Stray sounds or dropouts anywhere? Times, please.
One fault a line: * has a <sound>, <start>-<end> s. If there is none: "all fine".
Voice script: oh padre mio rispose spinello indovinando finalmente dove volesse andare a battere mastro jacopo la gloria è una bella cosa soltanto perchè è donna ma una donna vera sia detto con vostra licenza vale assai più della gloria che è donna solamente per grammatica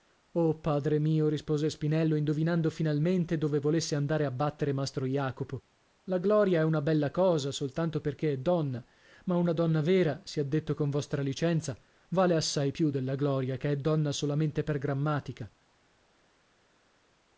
all fine